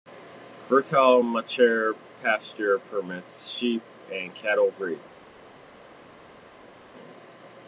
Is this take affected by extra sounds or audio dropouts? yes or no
no